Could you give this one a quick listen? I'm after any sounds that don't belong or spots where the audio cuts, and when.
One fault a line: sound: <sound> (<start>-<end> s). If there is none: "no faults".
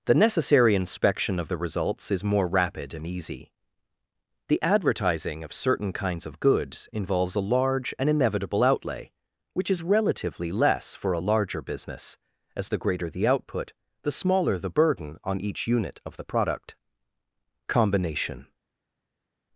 no faults